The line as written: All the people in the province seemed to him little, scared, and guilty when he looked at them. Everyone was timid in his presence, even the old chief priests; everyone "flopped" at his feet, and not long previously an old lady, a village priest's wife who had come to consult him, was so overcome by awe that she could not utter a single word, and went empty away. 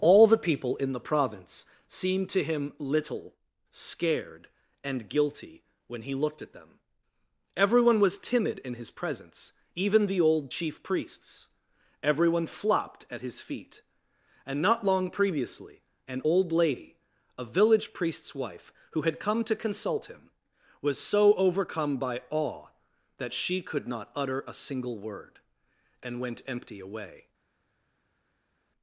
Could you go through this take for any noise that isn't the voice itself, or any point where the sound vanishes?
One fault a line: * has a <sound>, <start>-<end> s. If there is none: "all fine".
all fine